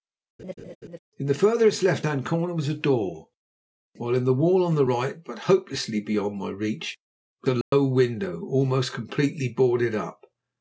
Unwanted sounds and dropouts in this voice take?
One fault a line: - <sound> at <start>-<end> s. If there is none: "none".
- laugh at 0.4-1.0 s
- dropout at 7.6-7.7 s